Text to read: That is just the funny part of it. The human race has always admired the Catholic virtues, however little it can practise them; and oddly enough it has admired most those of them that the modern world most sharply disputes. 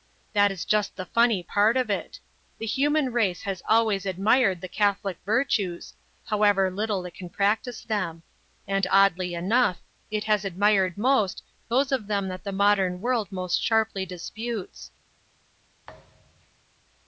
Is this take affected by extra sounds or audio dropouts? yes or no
yes